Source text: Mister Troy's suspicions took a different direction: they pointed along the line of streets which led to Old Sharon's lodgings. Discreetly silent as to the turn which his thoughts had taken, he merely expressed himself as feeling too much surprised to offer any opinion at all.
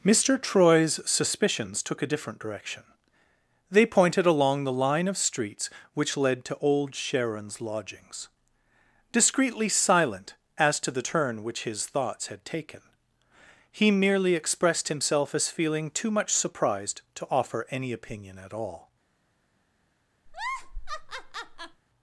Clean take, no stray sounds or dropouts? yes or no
no